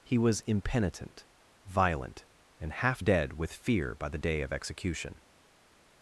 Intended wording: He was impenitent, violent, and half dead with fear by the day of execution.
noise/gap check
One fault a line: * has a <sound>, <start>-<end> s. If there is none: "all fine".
all fine